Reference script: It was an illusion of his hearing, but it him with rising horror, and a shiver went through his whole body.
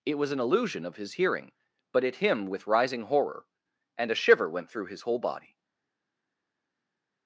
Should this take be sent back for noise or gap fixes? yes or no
no